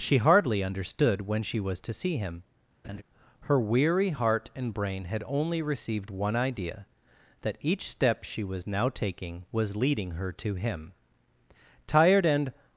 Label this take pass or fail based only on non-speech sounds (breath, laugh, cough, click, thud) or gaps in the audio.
fail